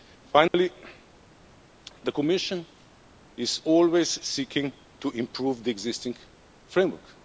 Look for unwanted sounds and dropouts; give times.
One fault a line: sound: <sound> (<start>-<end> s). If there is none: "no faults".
sound: dropout (0.5-0.5 s)